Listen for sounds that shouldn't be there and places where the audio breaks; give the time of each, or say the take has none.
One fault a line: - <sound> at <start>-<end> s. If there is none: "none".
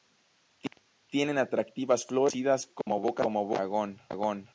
- dropout at 2.8-2.9 s